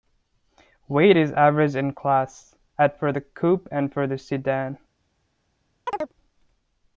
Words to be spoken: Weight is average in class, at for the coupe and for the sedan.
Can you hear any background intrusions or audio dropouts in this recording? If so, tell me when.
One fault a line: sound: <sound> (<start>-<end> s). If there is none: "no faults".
sound: chirp (5.9-6.1 s)